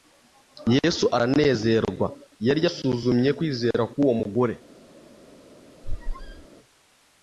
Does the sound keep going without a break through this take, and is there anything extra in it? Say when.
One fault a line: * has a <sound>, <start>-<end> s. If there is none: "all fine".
* has a squeak, 5.8-6.5 s